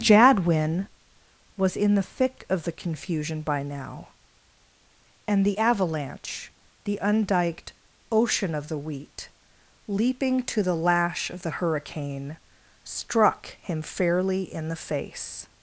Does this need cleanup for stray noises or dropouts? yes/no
no